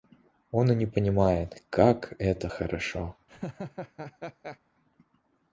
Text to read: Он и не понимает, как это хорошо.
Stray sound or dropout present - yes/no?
yes